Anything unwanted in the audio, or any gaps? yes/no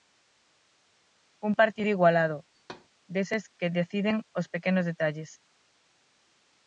yes